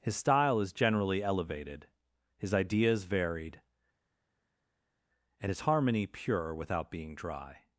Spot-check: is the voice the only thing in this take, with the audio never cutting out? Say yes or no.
yes